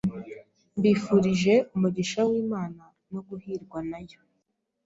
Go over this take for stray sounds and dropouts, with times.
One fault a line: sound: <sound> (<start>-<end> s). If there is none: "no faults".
no faults